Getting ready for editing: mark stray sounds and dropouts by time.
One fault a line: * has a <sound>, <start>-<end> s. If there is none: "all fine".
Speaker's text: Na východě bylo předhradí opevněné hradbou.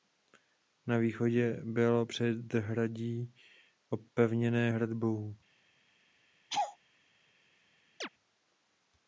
* has a laugh, 6.5-6.8 s
* has a chirp, 8.0-8.1 s